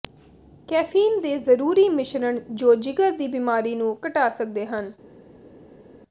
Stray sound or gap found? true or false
false